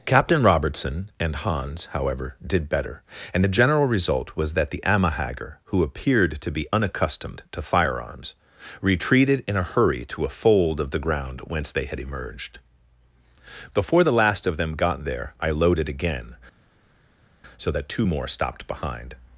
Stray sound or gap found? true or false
false